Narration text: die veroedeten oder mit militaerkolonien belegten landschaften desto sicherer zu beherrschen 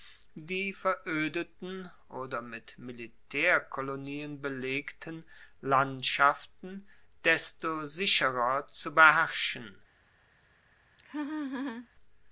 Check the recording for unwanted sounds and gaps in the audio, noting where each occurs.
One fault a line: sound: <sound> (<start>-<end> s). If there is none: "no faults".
sound: laugh (11.0-11.9 s)